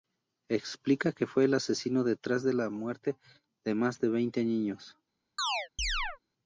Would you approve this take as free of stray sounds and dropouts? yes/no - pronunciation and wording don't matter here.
no